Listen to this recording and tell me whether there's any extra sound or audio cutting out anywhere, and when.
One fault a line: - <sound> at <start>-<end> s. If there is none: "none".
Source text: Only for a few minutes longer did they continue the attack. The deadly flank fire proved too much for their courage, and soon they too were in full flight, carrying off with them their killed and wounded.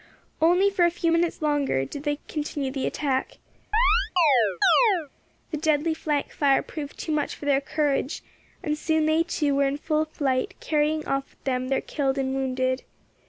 - chirp at 3.7-5.1 s